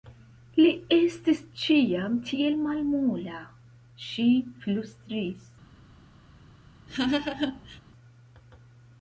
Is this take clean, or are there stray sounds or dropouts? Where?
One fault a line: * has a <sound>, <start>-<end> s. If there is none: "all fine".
* has a laugh, 6.9-7.8 s